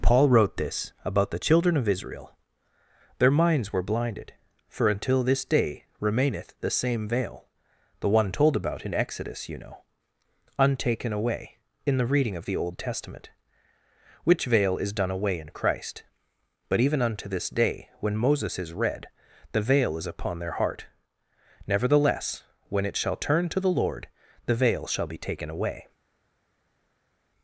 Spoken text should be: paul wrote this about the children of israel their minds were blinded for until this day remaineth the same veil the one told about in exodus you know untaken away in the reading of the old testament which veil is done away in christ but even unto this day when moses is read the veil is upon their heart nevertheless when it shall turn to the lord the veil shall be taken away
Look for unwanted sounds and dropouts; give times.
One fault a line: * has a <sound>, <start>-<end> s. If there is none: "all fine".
all fine